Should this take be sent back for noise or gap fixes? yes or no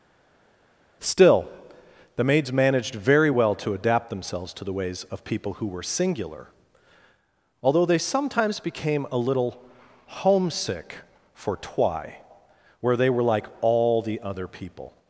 no